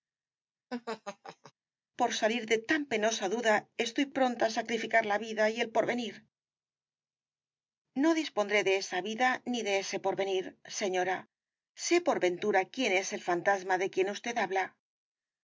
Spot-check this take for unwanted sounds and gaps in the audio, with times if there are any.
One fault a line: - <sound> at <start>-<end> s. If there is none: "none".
- laugh at 0.7-1.5 s